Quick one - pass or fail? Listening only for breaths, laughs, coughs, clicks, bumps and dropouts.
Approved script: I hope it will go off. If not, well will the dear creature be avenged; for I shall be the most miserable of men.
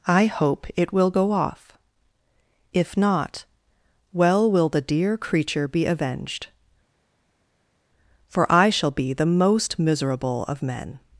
pass